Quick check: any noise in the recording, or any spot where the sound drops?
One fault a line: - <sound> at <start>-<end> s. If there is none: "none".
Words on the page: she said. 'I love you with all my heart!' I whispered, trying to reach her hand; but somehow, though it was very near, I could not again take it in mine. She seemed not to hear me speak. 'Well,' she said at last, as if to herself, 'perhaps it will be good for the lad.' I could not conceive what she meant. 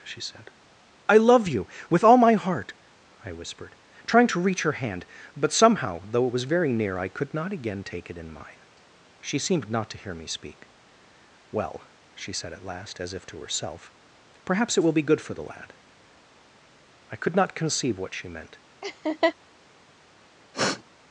- laugh at 18.8-19.3 s
- sniff at 20.5-20.8 s